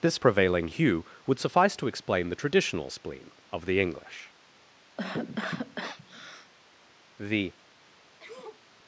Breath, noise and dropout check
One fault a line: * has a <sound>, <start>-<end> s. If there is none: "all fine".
* has a cough, 5.0-6.5 s
* has a sneeze, 8.2-8.6 s